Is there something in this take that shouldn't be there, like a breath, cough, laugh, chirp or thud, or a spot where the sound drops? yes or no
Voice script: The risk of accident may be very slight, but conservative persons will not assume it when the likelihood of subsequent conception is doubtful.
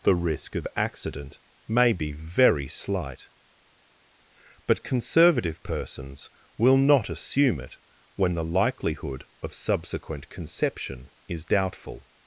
no